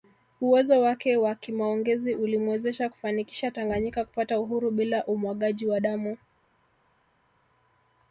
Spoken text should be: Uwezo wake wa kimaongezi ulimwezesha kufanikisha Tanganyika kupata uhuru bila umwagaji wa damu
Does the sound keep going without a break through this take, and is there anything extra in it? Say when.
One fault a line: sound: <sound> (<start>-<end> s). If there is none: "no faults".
no faults